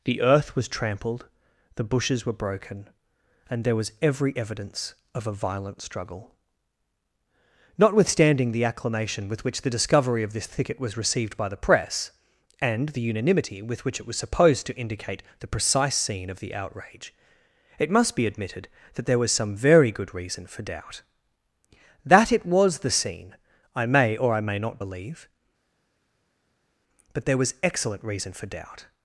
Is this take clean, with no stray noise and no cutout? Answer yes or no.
yes